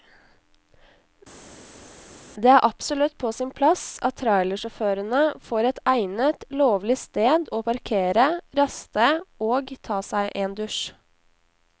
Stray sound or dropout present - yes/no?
no